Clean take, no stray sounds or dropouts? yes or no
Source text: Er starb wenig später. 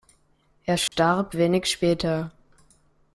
no